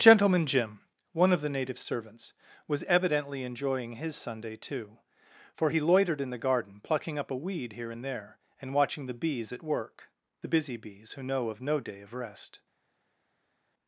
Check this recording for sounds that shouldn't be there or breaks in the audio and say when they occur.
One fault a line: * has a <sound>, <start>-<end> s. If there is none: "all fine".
all fine